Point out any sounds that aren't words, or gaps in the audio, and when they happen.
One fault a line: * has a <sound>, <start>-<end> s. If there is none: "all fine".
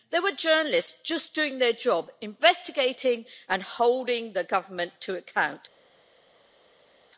all fine